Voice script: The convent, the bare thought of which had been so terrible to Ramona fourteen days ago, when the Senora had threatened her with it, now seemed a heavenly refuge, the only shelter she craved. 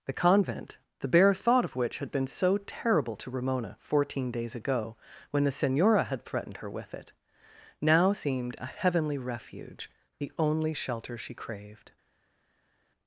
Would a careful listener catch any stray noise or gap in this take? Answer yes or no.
no